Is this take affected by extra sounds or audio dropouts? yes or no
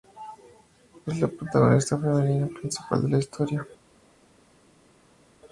no